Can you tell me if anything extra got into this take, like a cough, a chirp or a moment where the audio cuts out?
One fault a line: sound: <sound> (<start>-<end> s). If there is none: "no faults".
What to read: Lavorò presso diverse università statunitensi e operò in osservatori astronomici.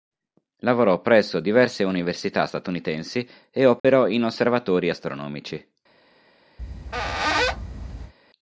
sound: dropout (3.8-3.8 s)
sound: squeak (6.6-8.1 s)